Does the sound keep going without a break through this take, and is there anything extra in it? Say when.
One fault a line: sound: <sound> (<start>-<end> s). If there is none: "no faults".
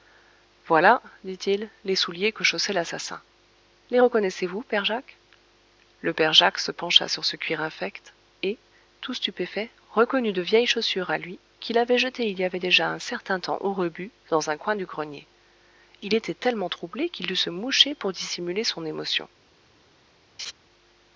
sound: laugh (20.4-20.5 s)